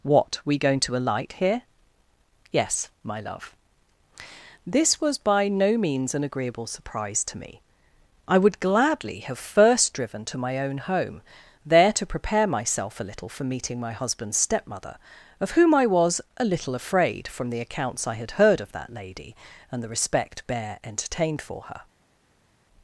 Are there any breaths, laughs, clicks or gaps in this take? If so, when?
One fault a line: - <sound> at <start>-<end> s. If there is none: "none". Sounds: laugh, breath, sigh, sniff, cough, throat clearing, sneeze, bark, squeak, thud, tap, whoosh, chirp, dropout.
none